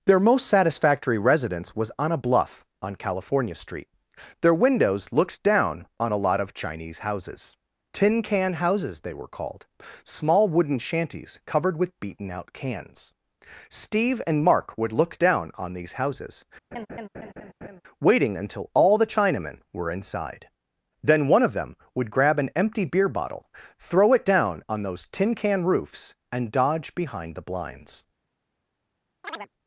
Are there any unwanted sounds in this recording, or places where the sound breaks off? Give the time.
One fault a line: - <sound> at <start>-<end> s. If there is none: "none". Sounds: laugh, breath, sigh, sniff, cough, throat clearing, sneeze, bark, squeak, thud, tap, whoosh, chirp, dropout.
- laugh at 16.7-17.8 s
- chirp at 29.2-29.5 s